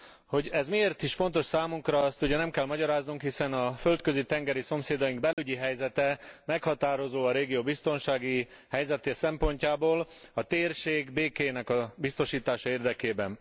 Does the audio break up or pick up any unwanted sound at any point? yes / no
yes